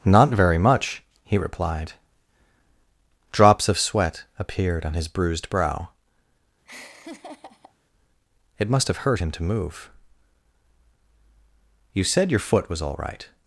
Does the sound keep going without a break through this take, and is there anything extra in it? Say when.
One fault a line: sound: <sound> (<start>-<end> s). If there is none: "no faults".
sound: laugh (6.6-7.7 s)